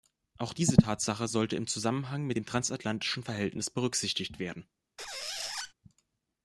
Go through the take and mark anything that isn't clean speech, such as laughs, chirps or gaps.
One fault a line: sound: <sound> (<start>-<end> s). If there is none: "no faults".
sound: squeak (5.0-5.7 s)